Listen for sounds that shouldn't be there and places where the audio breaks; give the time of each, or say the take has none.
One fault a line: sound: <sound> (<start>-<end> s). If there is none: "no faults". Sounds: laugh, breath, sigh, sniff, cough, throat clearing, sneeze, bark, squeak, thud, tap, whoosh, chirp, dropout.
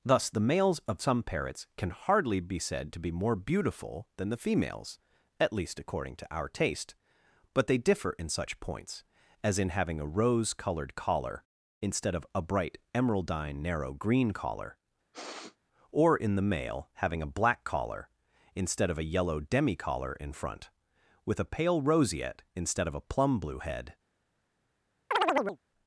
sound: sniff (15.1-15.6 s)
sound: chirp (25.1-25.6 s)